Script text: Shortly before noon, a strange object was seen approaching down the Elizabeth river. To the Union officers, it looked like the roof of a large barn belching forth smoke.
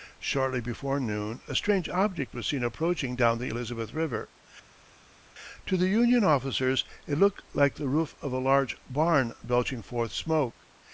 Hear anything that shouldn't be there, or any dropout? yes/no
no